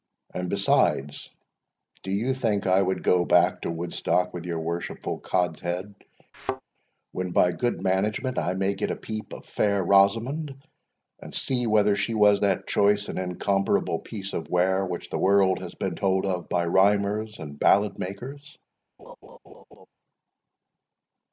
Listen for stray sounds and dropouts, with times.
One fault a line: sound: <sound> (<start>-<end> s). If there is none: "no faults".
sound: thud (6.3-6.6 s)
sound: laugh (19.0-19.9 s)